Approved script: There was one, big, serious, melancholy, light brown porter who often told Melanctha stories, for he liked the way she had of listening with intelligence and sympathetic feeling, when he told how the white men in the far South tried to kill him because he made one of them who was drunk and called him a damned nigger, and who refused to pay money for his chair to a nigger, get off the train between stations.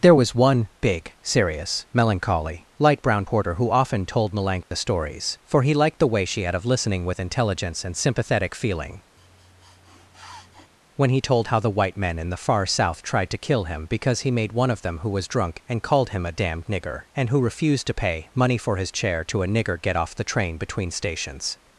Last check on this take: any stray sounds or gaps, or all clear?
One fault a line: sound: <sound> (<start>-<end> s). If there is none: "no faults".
sound: dropout (4.6-4.7 s)
sound: sniff (9.2-10.7 s)